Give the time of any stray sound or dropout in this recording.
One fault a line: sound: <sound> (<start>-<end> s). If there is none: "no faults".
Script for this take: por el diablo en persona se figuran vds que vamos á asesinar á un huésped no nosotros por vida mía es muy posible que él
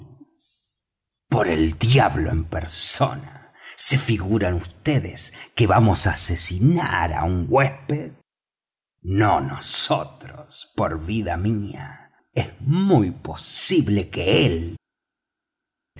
no faults